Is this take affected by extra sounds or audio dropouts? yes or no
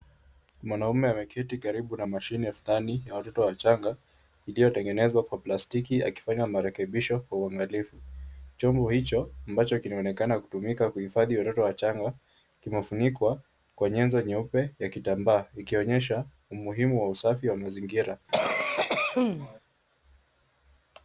yes